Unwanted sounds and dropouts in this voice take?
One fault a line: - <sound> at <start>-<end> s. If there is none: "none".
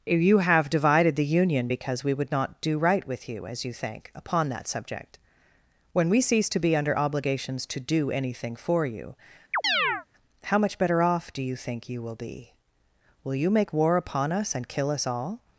- chirp at 9.5-10.1 s